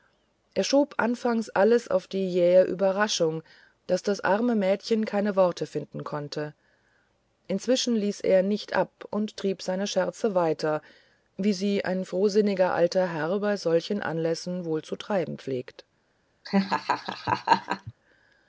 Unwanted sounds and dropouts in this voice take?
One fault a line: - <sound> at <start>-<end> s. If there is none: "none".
- laugh at 16.4-17.9 s